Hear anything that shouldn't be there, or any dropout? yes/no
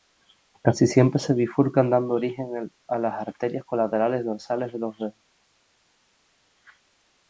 no